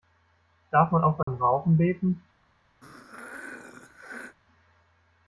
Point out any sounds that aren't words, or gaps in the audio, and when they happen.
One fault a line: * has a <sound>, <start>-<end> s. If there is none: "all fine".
* has a dropout, 1.2-1.3 s
* has a throat clearing, 2.8-4.4 s